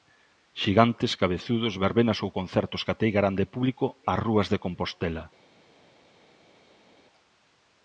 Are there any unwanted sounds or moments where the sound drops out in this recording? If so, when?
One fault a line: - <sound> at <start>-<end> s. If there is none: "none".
none